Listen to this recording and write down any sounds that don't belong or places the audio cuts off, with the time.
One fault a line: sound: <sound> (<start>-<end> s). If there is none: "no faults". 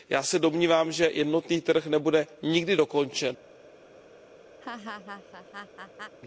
sound: laugh (4.6-6.2 s)